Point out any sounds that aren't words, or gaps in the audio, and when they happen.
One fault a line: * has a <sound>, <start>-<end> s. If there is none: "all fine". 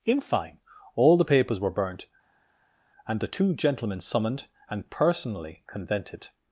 all fine